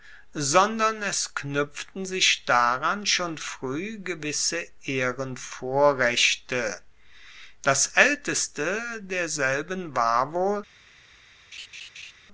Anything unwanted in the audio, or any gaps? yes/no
yes